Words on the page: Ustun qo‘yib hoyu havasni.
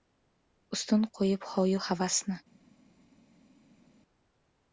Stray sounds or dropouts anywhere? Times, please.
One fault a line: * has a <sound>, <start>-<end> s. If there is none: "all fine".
all fine